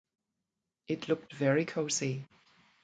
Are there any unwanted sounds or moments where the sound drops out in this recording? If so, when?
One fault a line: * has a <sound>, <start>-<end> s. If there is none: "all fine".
all fine